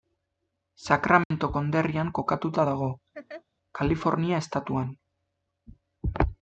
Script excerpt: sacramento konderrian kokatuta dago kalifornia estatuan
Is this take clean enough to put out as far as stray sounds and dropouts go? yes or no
no